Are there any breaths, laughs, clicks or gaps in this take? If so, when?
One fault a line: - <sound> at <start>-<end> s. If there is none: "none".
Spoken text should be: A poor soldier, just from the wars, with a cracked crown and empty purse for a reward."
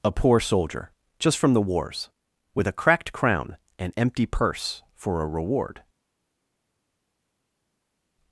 none